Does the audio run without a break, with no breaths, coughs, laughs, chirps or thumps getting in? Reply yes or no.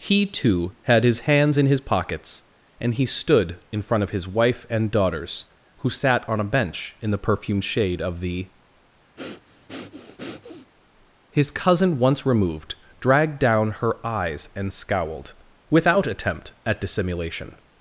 no